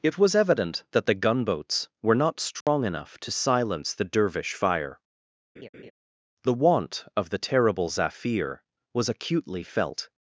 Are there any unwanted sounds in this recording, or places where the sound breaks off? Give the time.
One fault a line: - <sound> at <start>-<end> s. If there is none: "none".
- dropout at 2.6-2.7 s
- laugh at 5.6-5.9 s